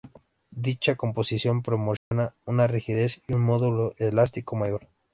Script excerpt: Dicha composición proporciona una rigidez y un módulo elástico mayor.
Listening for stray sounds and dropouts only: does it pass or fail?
fail